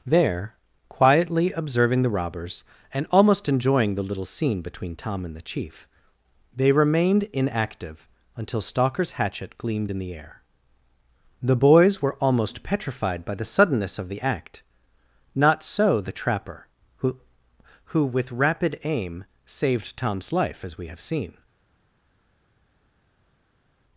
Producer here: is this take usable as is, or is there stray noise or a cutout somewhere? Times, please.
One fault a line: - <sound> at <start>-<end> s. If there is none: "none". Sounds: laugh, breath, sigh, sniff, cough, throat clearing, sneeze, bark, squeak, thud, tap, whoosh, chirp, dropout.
none